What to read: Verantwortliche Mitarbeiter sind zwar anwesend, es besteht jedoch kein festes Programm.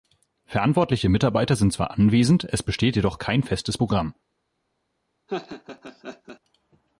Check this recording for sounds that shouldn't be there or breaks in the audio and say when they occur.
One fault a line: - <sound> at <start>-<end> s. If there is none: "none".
- laugh at 5.3-6.4 s